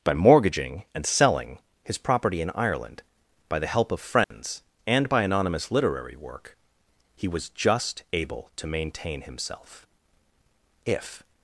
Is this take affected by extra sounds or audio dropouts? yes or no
yes